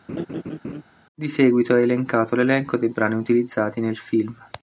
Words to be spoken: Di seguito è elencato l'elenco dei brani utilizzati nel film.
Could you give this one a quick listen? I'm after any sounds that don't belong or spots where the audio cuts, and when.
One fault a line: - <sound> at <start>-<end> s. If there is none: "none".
- laugh at 0.1-0.8 s